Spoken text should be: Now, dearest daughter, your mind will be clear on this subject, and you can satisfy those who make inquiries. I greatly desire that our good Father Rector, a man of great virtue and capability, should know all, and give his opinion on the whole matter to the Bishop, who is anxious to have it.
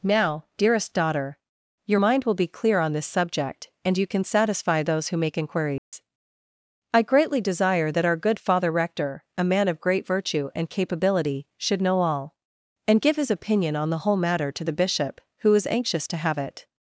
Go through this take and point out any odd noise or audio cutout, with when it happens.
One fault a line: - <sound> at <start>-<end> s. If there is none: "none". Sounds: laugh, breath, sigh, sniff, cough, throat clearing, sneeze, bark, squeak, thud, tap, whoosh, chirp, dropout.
- dropout at 5.8-5.9 s